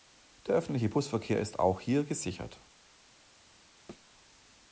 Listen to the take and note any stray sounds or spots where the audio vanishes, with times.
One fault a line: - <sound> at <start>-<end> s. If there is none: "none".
- thud at 3.9-4.1 s